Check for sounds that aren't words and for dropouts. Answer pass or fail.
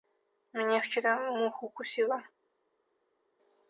pass